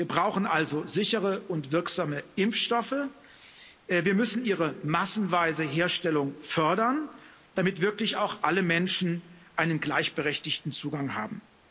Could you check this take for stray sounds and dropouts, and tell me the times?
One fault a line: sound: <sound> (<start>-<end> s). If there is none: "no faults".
no faults